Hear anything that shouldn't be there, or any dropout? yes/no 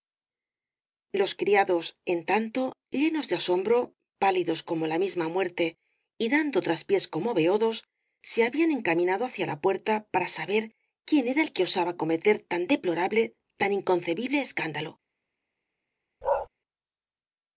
yes